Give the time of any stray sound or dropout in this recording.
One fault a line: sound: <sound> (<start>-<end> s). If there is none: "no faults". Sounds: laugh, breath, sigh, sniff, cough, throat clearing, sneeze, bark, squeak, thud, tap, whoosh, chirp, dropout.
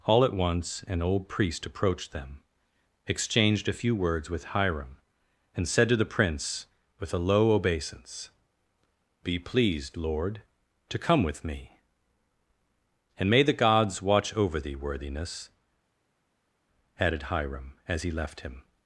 no faults